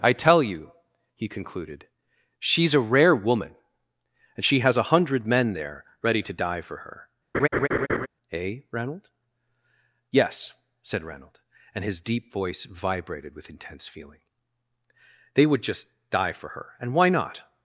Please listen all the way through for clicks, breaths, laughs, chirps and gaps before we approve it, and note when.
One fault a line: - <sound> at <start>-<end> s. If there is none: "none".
- laugh at 7.3-8.1 s